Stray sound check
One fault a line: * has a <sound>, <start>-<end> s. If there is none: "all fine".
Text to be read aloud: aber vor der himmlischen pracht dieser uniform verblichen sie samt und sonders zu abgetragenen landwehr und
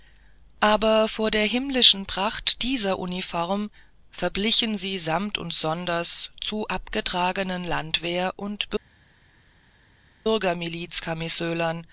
all fine